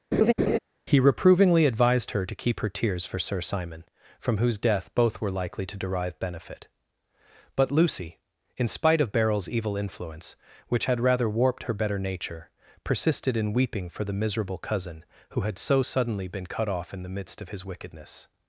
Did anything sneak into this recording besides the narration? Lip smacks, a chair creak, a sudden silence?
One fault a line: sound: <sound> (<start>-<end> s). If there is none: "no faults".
sound: laugh (0.1-0.6 s)